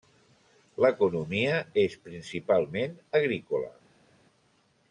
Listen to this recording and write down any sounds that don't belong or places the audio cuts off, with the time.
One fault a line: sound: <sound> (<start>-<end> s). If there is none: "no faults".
no faults